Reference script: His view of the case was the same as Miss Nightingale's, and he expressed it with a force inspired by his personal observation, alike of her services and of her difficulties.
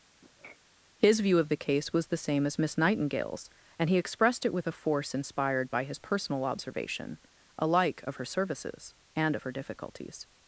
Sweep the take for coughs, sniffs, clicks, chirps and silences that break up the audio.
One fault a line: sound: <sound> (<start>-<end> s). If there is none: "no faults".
sound: sniff (0.2-0.6 s)